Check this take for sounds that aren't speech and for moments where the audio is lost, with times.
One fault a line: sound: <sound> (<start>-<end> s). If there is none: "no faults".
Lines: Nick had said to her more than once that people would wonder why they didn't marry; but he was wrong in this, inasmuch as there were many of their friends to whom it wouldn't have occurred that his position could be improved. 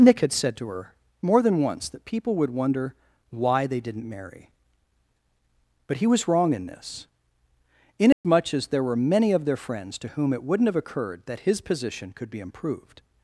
sound: dropout (8.1-8.2 s)